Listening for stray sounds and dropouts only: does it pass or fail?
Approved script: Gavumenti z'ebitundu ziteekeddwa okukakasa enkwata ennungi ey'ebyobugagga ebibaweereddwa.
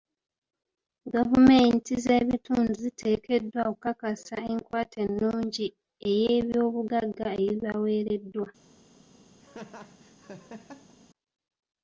fail